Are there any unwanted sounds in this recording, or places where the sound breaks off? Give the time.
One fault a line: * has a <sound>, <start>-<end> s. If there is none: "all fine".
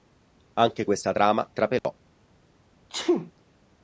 * has a dropout, 1.8-1.8 s
* has a sneeze, 2.9-3.3 s